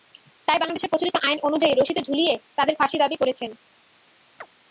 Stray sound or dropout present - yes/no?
yes